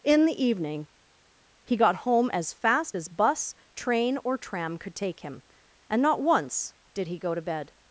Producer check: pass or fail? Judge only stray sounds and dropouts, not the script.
pass